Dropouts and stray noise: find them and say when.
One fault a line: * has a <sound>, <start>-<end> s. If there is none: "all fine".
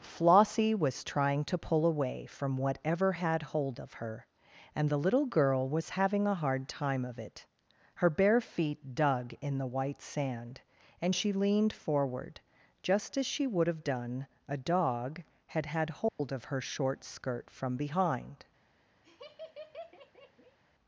* has a dropout, 16.1-16.2 s
* has a laugh, 19.0-20.6 s